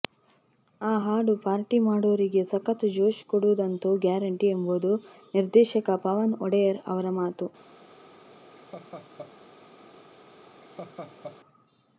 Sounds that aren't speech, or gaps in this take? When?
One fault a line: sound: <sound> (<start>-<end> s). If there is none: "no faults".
sound: laugh (8.6-9.3 s)
sound: laugh (10.6-11.4 s)